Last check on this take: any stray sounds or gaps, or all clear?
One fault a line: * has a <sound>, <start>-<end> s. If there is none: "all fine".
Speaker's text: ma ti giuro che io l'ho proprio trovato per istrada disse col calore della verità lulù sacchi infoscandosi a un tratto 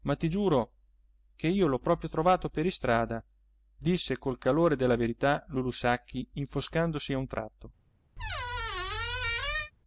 * has a squeak, 8.2-9.7 s